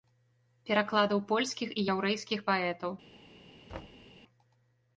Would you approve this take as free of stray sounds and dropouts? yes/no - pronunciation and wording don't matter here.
no